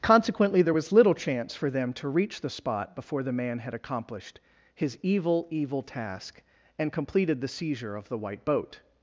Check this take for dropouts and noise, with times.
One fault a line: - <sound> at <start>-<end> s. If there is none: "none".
none